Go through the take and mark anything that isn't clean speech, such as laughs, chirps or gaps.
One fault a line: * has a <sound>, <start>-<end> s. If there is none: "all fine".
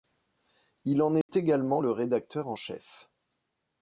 * has a dropout, 1.2-1.3 s